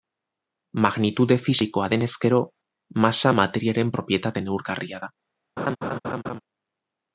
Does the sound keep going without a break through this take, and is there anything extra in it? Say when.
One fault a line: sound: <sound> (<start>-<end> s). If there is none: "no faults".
sound: laugh (5.6-6.4 s)